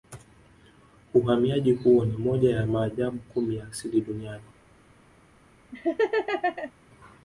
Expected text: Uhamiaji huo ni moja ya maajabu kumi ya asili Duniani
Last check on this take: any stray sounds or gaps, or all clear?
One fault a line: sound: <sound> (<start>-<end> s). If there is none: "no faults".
sound: laugh (5.7-6.7 s)